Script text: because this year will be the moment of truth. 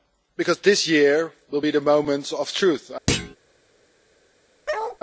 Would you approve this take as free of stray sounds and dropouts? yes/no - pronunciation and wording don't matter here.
no